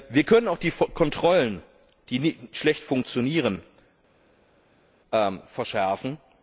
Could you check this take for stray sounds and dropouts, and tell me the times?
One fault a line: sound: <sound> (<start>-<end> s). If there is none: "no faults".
no faults